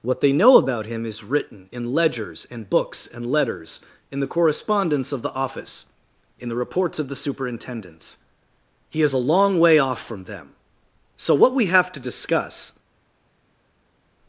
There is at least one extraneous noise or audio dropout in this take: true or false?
false